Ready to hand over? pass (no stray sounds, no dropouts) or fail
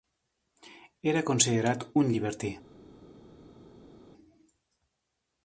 pass